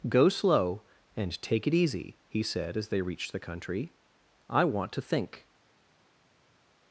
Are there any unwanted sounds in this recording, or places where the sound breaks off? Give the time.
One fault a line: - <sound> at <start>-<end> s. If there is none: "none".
none